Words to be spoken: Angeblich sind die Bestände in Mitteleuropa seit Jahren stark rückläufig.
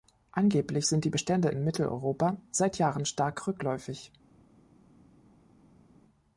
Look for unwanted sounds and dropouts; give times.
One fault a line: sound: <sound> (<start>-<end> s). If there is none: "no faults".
no faults